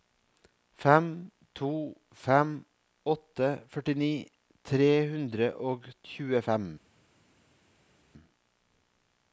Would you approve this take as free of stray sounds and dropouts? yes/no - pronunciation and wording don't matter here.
yes